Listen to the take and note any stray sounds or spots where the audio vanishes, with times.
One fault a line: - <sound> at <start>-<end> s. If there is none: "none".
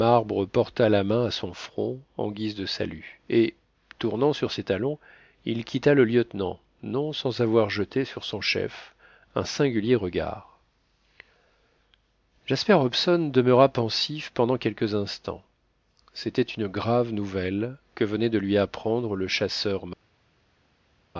none